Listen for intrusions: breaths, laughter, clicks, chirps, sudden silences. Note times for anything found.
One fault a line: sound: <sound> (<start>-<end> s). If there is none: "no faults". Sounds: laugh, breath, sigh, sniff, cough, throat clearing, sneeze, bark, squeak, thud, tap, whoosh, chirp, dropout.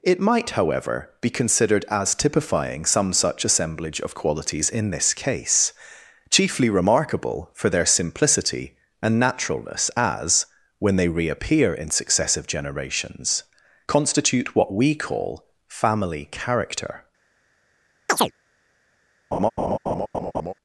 sound: chirp (18.1-18.3 s)
sound: laugh (19.3-20.5 s)